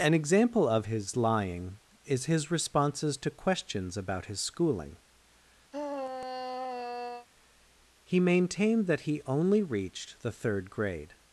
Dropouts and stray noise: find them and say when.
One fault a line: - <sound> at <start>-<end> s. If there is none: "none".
- sigh at 5.7-7.3 s